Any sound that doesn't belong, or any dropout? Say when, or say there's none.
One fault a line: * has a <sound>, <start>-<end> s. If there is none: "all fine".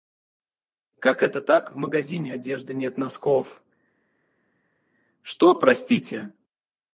all fine